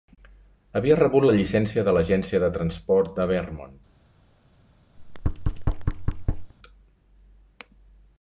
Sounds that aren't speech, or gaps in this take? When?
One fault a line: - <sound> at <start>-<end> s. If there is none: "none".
- thud at 5.0-6.5 s